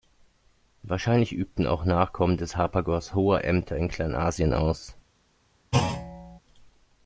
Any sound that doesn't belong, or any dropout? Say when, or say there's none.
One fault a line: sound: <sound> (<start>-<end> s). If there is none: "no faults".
sound: thud (5.7-6.4 s)